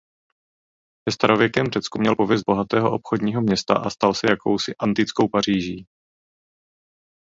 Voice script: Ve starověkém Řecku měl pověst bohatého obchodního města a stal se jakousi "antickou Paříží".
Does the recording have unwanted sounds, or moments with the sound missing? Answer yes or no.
no